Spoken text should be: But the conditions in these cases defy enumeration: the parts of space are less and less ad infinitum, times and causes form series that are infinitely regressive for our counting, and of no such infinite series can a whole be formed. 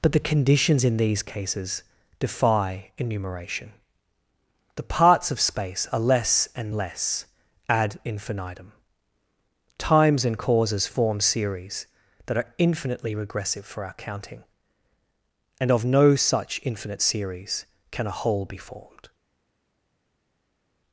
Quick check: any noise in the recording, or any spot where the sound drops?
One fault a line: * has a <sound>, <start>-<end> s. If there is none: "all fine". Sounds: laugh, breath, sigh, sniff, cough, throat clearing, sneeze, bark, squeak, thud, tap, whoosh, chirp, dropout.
all fine